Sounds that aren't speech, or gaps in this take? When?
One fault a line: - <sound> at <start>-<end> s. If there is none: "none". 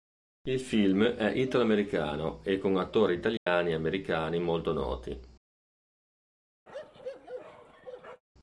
- dropout at 3.4-3.5 s
- bark at 6.7-8.2 s